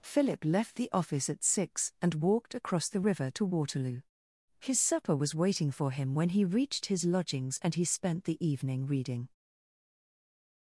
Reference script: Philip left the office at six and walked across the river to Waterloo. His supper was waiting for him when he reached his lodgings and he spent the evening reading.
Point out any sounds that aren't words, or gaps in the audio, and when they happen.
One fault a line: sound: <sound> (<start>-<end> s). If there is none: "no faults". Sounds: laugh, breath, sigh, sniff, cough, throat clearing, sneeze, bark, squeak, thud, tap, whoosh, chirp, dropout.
no faults